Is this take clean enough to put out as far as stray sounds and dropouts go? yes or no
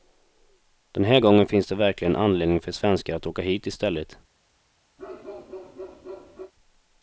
no